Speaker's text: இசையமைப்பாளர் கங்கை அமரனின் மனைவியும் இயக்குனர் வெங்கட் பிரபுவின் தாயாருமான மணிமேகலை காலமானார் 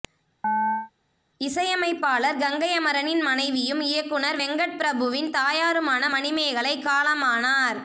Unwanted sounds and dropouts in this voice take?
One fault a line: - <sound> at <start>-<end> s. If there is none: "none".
- chirp at 0.4-0.9 s